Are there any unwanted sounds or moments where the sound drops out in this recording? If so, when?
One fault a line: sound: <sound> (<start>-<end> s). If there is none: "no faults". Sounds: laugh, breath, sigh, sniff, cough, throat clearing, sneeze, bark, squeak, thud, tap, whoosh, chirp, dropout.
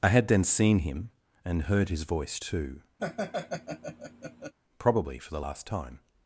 sound: laugh (3.0-4.5 s)